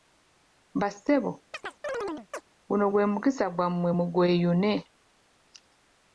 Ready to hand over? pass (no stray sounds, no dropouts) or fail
fail